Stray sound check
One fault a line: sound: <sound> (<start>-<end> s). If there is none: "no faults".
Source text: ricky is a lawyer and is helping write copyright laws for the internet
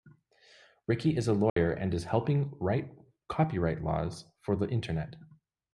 sound: dropout (1.5-1.6 s)